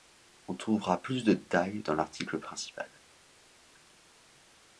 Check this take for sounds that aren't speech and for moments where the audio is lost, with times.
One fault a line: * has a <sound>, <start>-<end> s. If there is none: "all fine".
all fine